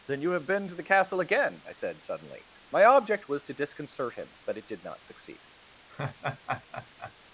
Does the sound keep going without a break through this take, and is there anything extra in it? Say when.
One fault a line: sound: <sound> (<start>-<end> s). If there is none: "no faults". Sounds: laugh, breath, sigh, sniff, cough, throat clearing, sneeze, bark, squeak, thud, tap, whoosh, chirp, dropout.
sound: laugh (5.9-7.1 s)